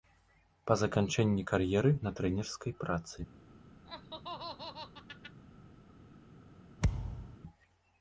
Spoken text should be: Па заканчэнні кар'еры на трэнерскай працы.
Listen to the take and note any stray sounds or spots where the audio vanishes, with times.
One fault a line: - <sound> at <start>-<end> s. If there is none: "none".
- laugh at 3.8-5.4 s
- thud at 6.8-7.4 s